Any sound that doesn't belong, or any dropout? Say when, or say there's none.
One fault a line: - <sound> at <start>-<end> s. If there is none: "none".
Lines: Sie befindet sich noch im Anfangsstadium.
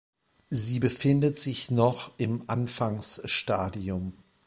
none